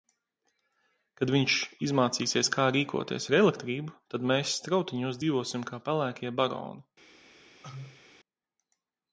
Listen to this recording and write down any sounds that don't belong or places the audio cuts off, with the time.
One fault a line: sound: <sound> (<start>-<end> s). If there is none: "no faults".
sound: cough (7.6-8.0 s)